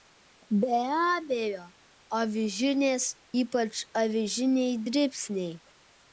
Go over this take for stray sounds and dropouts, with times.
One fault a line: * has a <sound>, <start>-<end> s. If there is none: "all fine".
all fine